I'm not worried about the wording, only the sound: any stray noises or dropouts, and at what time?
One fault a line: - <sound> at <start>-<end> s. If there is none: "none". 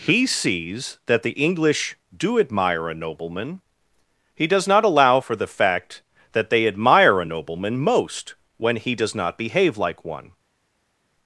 none